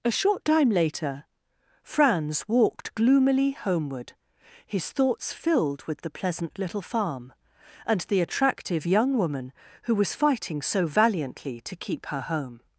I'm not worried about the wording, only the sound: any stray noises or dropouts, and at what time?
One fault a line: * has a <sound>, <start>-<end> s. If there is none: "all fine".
all fine